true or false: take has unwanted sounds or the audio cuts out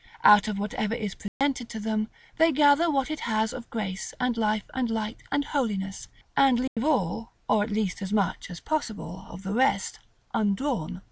true